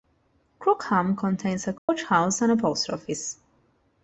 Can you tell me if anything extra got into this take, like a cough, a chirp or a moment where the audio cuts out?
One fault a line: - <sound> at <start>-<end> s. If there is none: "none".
- dropout at 1.8-1.9 s